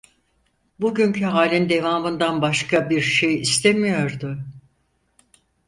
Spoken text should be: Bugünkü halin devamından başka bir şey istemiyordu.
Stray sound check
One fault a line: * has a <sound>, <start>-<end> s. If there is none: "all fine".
all fine